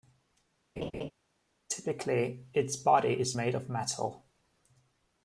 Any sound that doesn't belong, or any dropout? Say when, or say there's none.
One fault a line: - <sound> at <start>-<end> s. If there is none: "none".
- laugh at 0.8-1.1 s